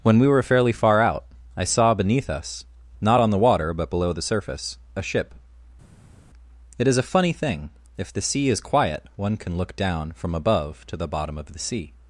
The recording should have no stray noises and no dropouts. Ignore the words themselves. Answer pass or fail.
pass